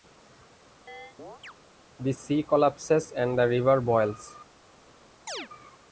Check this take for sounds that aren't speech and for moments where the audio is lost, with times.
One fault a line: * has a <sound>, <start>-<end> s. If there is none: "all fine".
* has a chirp, 0.9-1.5 s
* has a chirp, 5.3-5.5 s